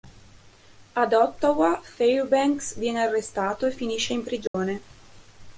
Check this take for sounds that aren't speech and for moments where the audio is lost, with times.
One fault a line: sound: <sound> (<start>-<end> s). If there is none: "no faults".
sound: dropout (4.5-4.5 s)